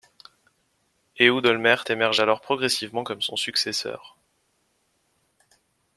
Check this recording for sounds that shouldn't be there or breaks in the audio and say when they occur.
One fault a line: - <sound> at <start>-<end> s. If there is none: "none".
none